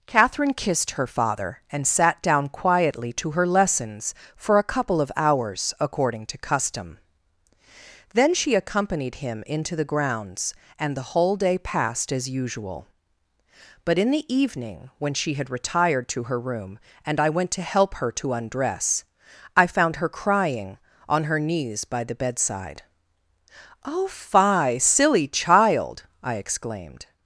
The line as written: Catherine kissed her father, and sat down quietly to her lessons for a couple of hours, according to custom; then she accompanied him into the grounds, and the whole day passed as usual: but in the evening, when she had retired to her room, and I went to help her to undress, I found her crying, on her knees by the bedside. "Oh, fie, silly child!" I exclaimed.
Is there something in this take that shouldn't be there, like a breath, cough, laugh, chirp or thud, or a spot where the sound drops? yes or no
no